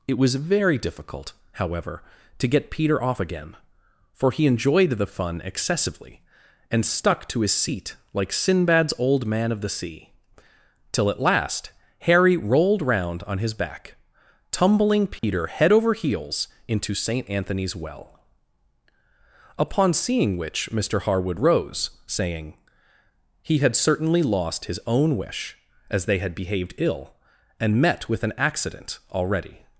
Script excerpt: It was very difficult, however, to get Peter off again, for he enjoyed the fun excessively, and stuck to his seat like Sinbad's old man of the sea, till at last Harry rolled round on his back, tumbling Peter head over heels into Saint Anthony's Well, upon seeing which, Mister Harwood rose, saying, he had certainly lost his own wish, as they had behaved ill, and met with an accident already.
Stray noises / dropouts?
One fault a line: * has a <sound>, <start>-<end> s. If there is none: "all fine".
* has a dropout, 15.2-15.2 s